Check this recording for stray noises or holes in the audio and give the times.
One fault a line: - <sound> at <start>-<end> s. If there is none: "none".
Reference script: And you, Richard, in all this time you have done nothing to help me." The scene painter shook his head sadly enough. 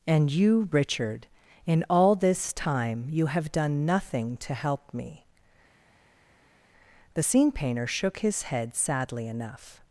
none